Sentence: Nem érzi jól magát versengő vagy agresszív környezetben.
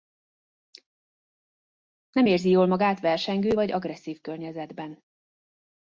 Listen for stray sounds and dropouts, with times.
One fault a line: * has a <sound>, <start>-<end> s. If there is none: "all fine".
all fine